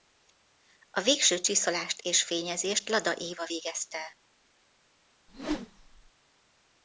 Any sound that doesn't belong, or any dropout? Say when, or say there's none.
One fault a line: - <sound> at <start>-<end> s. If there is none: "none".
- whoosh at 5.3-6.1 s